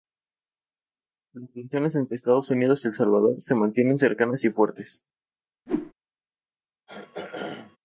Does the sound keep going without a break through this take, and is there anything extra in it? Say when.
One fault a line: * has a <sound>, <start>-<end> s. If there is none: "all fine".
* has a whoosh, 5.7-5.9 s
* has a throat clearing, 6.9-7.8 s